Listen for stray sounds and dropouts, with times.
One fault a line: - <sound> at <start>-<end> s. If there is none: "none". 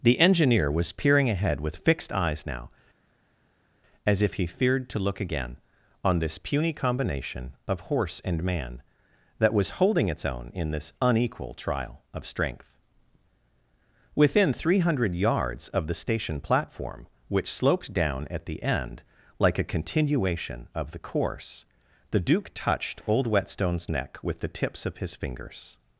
none